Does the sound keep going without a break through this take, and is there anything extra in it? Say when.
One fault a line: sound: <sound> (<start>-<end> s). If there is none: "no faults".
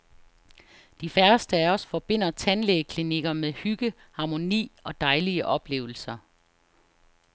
no faults